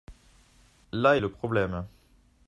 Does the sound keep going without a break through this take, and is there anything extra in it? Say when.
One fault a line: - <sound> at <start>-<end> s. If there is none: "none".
none